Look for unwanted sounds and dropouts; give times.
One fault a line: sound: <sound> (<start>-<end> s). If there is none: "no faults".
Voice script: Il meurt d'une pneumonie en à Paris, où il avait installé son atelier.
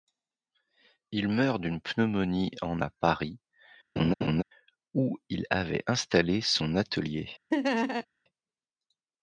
sound: laugh (4.0-4.4 s)
sound: laugh (7.5-8.1 s)